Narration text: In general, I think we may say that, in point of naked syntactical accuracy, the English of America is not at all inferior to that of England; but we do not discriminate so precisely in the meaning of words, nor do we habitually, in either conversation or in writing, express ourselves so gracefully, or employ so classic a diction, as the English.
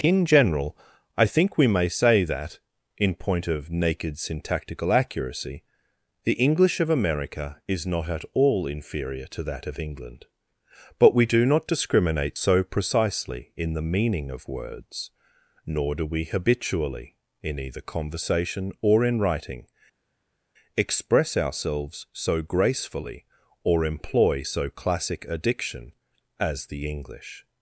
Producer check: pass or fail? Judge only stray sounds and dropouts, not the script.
pass